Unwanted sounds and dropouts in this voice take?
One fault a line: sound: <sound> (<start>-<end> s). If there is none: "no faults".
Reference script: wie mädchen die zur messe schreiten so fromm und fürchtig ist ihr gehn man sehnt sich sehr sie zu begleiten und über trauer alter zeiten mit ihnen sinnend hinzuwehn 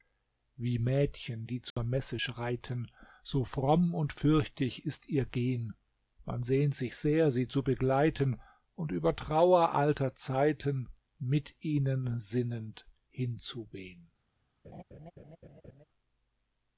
sound: dropout (1.7-1.8 s)
sound: laugh (14.6-15.8 s)